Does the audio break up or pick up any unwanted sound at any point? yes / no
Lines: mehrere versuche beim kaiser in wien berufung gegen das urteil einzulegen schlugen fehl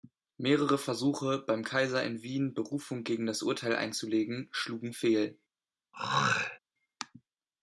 yes